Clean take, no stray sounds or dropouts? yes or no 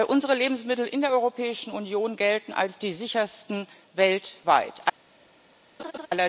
no